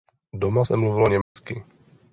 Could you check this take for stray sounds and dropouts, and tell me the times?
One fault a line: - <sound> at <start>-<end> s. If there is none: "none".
- dropout at 1.2-1.4 s